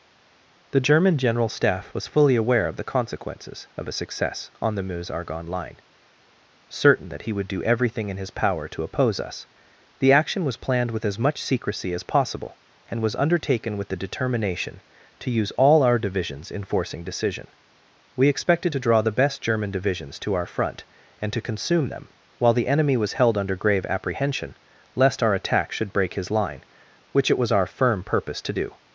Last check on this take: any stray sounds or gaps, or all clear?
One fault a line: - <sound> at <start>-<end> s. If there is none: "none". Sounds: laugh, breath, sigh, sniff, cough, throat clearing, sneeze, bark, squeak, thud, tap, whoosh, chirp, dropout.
none